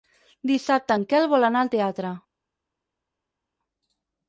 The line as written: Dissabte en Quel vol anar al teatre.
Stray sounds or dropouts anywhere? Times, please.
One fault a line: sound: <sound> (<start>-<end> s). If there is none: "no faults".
no faults